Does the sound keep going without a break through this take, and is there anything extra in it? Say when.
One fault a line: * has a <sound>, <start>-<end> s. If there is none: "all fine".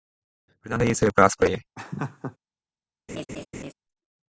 * has a laugh, 1.8-2.4 s
* has a laugh, 3.1-3.7 s